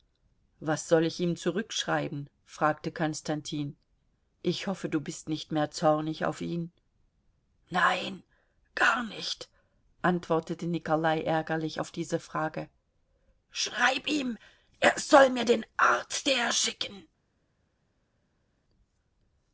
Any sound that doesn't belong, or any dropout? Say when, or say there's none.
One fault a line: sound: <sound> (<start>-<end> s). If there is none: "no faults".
no faults